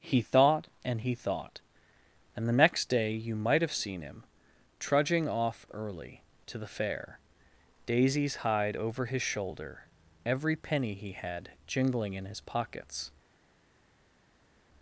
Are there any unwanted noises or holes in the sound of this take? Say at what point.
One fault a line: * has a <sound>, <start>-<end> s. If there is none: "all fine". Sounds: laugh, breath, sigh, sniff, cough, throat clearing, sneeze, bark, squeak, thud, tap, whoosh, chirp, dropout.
all fine